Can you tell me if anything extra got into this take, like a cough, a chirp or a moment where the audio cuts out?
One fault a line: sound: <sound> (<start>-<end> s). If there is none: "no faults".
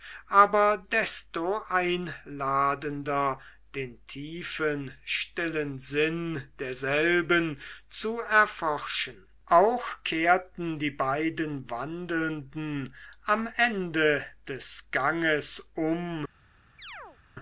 sound: chirp (16.8-17.2 s)